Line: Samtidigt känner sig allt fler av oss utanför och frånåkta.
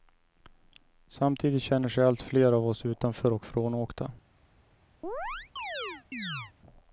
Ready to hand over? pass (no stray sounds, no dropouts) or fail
fail